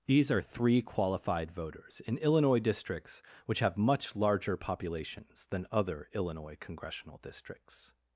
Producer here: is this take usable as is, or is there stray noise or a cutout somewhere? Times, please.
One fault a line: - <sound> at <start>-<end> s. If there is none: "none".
none